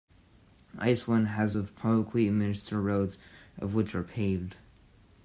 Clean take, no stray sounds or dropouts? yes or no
yes